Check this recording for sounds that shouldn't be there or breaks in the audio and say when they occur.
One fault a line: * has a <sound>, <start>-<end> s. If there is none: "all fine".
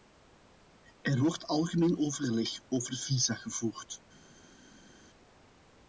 all fine